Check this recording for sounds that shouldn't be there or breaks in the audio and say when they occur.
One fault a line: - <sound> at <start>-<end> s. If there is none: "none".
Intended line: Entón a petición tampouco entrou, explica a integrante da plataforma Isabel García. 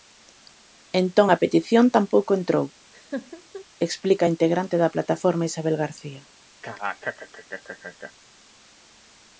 - laugh at 2.9-3.7 s
- laugh at 6.6-8.1 s